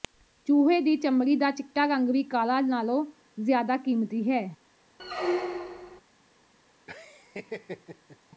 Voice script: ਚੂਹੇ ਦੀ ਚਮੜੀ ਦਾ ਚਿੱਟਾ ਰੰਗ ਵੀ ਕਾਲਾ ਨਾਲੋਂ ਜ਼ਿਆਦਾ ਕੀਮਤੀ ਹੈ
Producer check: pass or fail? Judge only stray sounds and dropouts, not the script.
fail